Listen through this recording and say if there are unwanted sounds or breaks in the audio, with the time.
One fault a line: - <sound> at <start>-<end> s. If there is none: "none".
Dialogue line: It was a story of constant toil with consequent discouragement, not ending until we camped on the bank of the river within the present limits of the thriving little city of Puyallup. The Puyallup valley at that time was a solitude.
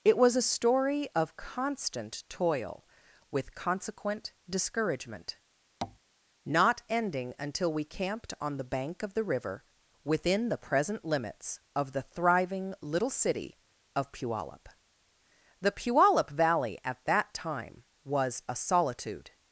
- tap at 5.8-6.0 s